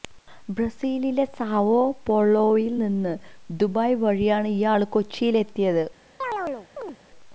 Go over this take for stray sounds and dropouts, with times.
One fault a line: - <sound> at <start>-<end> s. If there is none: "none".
- chirp at 6.2-7.0 s